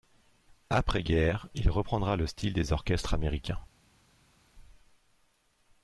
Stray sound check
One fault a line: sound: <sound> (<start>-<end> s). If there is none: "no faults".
no faults